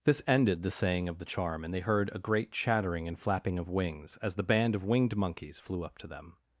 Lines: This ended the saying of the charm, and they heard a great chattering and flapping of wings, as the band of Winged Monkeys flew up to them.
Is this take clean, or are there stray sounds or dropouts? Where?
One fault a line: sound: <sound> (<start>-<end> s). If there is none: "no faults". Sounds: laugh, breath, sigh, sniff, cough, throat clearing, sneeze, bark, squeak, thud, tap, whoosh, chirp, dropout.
no faults